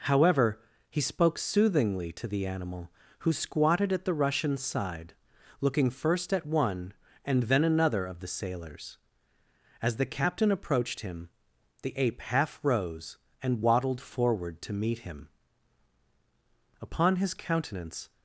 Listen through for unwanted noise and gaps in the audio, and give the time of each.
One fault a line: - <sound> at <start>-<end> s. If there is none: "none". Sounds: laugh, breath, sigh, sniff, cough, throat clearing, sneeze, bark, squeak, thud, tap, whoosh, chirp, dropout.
none